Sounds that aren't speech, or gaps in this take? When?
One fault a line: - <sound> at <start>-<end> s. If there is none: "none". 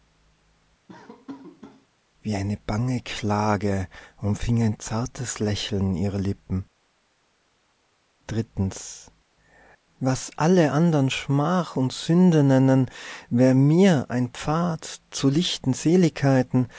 - laugh at 0.9-1.9 s